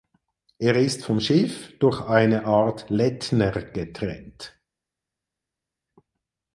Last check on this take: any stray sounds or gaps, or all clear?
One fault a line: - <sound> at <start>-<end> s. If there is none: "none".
none